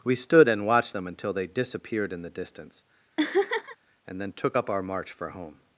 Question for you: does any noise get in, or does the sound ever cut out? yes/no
yes